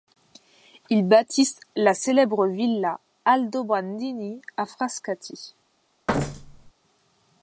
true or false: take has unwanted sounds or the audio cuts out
true